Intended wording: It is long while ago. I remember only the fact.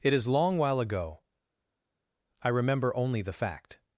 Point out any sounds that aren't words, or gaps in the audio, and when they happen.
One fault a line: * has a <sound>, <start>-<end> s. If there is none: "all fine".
all fine